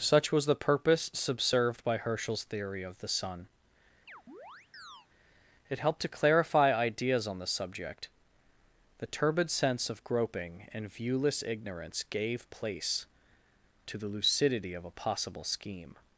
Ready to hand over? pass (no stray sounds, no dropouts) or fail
fail